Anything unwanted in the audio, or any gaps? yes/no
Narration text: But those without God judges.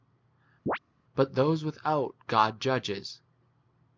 yes